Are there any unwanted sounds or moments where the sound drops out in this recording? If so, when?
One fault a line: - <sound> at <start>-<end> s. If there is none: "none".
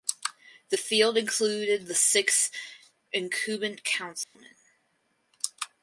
- dropout at 4.2-4.3 s